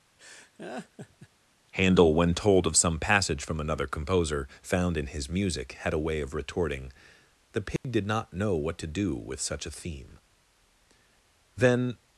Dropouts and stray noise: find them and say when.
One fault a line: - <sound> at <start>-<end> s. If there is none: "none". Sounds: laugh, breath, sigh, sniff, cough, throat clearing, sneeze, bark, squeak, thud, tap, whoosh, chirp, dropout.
- laugh at 0.2-1.3 s
- dropout at 7.8-7.8 s